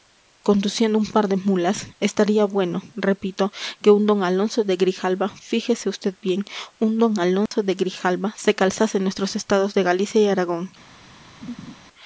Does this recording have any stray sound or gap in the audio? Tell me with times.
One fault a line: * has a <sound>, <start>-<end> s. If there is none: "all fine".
* has a dropout, 7.5-7.5 s
* has a laugh, 11.4-11.7 s